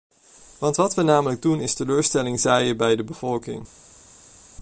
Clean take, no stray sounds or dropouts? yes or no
yes